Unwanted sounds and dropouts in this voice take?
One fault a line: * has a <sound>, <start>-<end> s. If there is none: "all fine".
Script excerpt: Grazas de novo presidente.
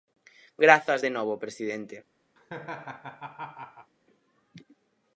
* has a laugh, 2.4-3.9 s